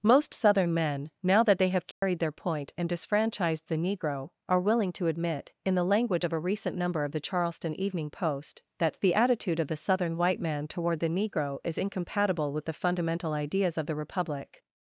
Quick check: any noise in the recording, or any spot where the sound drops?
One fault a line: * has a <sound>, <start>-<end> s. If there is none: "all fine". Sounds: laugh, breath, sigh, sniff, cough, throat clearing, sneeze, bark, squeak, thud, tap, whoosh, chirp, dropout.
* has a dropout, 1.9-2.0 s